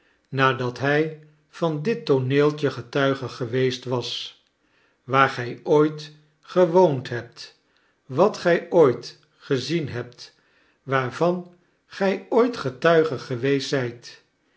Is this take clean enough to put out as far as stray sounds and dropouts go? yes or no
yes